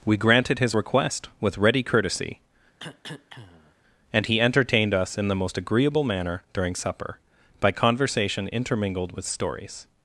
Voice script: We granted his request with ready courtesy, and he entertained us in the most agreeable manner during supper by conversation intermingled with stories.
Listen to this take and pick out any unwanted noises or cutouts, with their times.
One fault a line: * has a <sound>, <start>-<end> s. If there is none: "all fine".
* has a cough, 2.8-3.8 s